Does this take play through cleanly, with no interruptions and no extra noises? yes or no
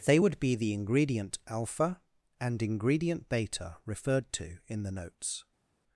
yes